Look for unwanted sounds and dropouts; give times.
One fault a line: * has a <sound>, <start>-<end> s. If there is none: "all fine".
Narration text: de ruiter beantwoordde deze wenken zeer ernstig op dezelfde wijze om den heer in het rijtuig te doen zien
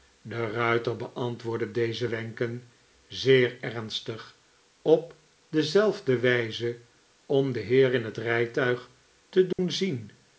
* has a dropout, 9.5-9.6 s